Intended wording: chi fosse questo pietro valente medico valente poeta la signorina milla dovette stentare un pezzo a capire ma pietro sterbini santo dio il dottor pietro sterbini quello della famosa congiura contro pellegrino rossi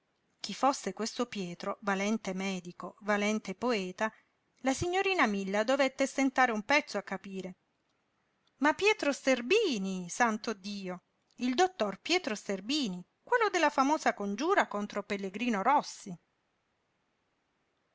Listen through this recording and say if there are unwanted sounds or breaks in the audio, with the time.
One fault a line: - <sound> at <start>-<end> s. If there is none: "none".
none